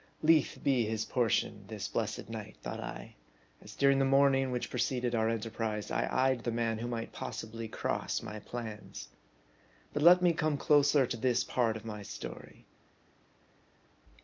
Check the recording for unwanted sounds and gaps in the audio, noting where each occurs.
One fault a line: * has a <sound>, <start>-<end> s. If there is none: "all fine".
all fine